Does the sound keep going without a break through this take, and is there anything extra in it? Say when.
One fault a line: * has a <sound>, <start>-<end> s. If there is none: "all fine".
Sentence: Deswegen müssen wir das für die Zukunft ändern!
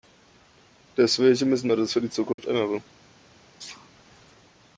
* has a dropout, 2.3-2.4 s
* has a sneeze, 3.6-3.9 s